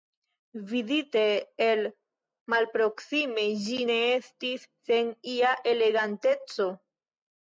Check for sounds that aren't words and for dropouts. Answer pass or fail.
pass